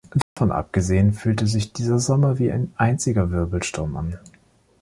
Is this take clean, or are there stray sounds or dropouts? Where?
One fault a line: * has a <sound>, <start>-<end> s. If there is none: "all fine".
* has a dropout, 0.2-0.4 s